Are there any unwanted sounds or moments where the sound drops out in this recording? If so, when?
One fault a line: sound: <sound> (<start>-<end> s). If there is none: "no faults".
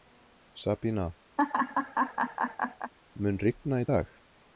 sound: laugh (1.4-2.9 s)